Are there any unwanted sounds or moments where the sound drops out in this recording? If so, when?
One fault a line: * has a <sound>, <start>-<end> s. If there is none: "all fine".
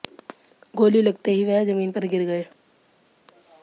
all fine